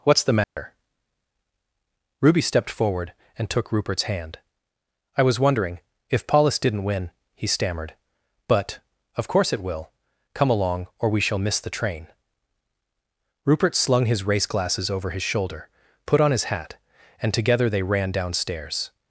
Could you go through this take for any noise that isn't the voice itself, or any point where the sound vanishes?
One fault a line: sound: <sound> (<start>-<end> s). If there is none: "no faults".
sound: dropout (0.4-0.6 s)